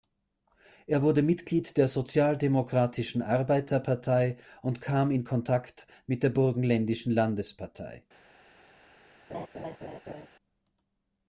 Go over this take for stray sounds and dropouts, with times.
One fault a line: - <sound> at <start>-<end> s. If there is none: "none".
- laugh at 9.3-10.3 s